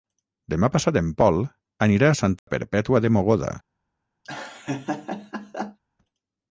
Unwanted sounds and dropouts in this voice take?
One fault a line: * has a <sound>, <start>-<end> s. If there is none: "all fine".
* has a dropout, 2.4-2.5 s
* has a laugh, 4.2-5.8 s